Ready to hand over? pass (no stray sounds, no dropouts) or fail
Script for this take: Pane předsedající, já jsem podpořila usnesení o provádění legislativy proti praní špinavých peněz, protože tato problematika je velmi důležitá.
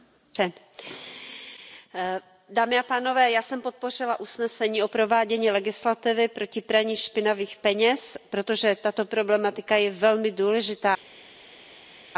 pass